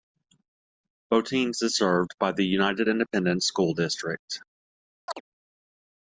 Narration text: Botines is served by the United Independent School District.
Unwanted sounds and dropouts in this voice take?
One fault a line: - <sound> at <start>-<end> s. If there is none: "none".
- chirp at 5.1-5.2 s